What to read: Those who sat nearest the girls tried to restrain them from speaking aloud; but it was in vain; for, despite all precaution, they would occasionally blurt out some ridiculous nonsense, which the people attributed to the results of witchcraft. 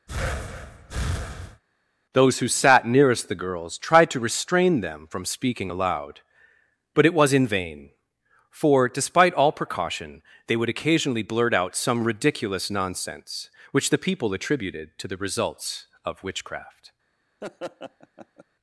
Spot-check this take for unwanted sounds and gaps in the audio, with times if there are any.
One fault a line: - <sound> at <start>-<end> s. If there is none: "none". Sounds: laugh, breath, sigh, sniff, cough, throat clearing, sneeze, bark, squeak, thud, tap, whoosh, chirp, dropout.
- breath at 0.1-1.6 s
- laugh at 17.4-18.4 s